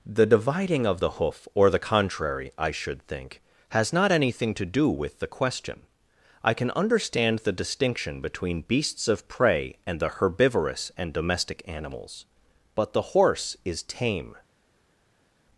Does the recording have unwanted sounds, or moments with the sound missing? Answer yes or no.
no